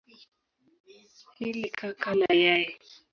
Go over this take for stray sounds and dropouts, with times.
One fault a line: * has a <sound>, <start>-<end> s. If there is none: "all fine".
all fine